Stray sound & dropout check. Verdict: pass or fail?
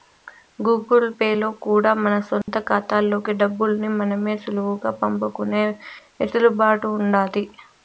fail